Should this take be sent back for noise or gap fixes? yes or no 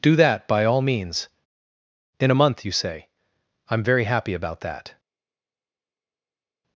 no